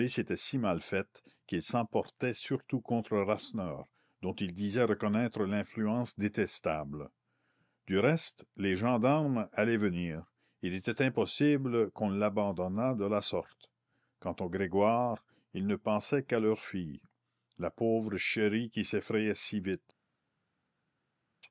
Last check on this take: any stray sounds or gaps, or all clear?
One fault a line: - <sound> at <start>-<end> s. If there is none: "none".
none